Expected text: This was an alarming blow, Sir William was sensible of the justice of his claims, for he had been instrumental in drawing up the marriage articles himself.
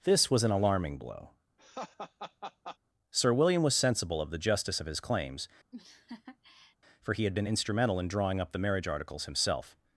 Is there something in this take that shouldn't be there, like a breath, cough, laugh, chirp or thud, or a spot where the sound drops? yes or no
yes